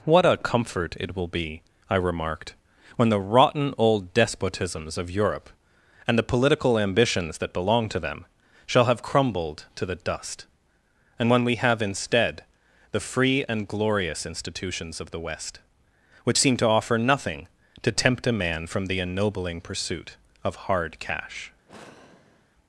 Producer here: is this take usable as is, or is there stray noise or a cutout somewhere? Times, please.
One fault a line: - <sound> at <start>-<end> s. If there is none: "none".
- sigh at 21.7-22.5 s